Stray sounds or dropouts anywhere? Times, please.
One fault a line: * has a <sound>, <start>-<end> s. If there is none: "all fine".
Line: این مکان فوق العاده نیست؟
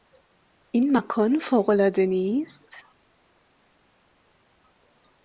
all fine